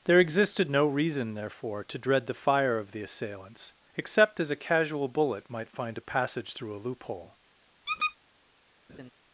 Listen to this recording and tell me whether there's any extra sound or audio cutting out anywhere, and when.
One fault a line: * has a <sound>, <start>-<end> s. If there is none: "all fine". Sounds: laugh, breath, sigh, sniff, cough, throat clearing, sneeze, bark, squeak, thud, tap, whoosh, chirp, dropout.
* has a squeak, 7.9-8.2 s
* has a laugh, 8.9-9.1 s